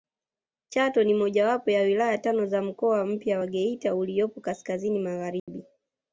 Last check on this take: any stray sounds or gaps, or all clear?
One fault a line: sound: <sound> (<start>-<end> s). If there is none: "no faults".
sound: dropout (5.4-5.5 s)